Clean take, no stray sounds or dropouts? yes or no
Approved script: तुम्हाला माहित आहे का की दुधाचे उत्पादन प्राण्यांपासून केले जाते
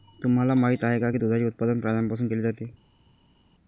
yes